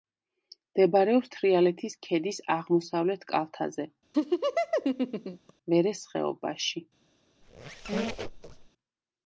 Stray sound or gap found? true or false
true